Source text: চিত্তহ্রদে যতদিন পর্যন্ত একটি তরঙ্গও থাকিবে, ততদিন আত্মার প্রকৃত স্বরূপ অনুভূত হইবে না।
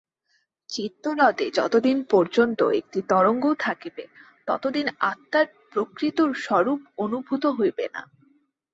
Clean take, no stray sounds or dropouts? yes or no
yes